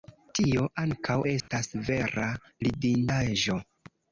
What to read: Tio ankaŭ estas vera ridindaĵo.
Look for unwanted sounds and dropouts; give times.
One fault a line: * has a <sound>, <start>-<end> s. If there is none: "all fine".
* has a dropout, 1.4-1.5 s